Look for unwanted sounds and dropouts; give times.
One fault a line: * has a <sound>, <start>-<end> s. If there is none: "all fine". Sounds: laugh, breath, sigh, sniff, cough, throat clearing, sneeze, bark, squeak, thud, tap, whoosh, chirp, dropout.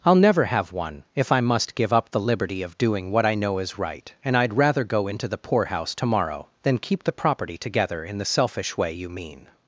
all fine